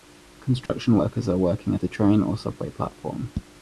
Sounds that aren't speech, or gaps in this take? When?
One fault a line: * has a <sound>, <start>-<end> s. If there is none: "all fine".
* has a dropout, 0.7-0.7 s